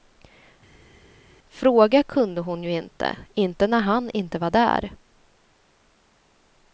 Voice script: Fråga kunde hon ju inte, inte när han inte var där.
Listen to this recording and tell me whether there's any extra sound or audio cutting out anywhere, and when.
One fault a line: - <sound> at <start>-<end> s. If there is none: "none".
none